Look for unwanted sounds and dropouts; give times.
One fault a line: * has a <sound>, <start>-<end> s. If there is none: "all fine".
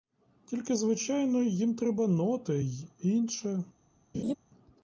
* has a laugh, 4.1-4.3 s